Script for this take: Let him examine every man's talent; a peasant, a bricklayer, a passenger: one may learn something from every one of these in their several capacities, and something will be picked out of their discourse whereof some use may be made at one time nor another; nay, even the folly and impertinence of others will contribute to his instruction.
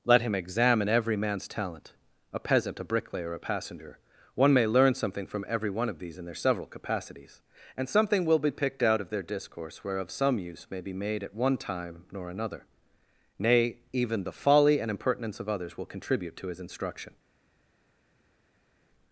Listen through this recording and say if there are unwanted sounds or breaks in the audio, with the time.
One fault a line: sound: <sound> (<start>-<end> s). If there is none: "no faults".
no faults